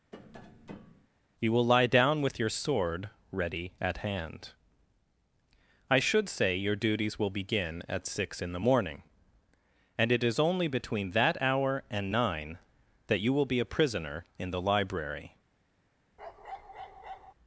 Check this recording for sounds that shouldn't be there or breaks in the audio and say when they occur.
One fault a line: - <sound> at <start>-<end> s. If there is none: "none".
- tap at 0.1-1.1 s
- bark at 16.2-17.3 s